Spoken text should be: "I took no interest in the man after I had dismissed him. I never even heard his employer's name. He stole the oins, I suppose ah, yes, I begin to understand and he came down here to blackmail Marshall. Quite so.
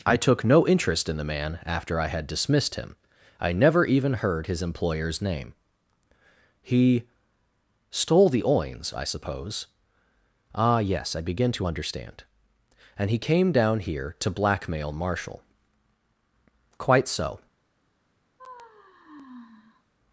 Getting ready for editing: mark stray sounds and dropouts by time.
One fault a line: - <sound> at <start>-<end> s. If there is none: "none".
- sigh at 18.4-19.8 s